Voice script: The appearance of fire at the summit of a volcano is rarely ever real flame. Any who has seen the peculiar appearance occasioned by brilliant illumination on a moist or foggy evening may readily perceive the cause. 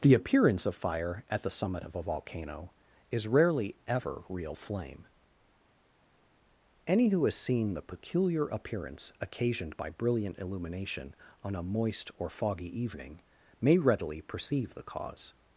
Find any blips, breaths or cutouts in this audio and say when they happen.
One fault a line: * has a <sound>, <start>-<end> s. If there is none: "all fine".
all fine